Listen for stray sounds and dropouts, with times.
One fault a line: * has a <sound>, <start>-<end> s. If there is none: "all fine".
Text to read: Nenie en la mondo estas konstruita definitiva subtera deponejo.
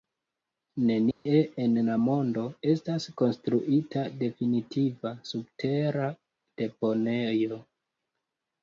* has a dropout, 1.1-1.3 s